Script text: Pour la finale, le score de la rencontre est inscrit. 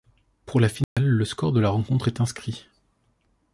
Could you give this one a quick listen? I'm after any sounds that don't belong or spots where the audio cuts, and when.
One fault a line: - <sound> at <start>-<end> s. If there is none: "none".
- dropout at 0.8-1.0 s